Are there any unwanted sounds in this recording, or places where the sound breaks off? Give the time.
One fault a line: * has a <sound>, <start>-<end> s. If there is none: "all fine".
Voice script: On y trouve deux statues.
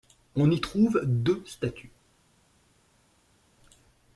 all fine